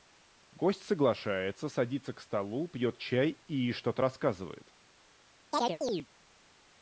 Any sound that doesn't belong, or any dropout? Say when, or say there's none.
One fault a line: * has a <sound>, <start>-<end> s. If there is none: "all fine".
* has a chirp, 5.5-6.1 s